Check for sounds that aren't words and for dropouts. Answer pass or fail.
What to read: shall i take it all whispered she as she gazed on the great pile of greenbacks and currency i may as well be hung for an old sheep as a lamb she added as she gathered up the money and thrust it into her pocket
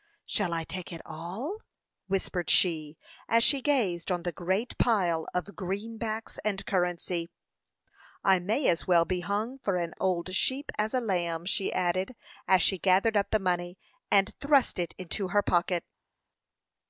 pass